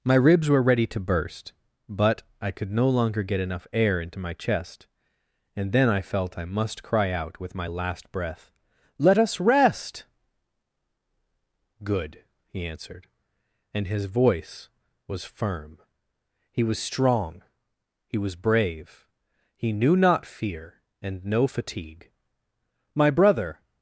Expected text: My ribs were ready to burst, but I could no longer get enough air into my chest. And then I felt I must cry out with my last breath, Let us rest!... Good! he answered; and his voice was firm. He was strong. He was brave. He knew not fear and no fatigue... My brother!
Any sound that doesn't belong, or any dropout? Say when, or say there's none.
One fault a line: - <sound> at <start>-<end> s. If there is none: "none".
none